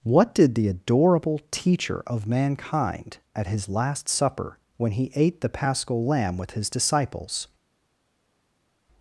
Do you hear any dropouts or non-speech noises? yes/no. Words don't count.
no